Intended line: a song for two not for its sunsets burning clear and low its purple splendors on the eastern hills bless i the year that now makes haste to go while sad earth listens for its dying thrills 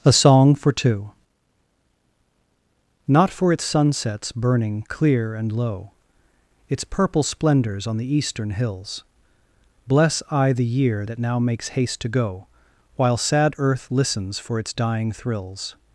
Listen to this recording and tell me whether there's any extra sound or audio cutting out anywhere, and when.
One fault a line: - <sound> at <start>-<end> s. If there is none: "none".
none